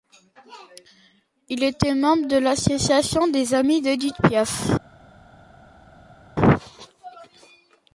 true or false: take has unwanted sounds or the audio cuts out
false